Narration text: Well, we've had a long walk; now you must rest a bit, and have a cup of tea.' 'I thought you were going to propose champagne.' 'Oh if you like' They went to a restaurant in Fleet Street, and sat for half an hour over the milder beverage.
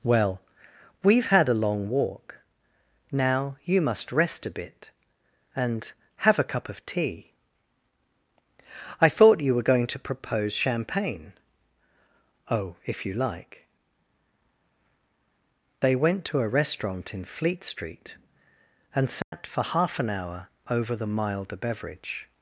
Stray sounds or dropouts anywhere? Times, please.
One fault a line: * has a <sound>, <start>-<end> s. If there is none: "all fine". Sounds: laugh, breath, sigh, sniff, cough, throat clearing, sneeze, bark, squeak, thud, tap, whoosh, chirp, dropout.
* has a dropout, 19.2-19.3 s